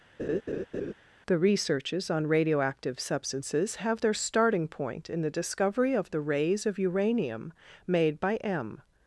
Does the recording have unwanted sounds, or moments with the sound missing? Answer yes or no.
yes